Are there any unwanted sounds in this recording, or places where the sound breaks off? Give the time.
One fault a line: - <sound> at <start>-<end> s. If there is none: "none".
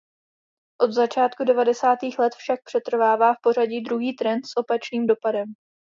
none